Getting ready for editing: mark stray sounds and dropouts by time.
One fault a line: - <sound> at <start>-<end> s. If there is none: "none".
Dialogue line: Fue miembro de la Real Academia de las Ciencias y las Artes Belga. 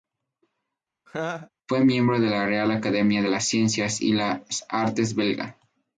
- laugh at 1.1-1.5 s